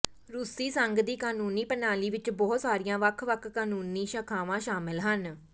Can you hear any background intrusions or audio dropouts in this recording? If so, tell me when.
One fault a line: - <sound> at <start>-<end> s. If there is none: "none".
none